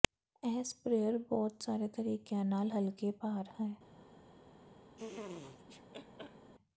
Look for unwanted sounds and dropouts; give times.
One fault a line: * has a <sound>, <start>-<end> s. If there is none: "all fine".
* has a laugh, 5.0-6.5 s